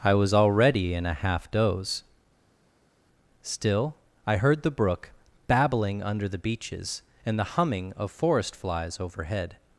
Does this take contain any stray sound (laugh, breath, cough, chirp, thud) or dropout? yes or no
no